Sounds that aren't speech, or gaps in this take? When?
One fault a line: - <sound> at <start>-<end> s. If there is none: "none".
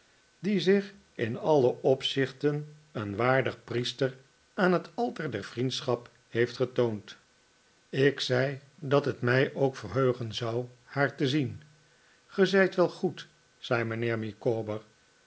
none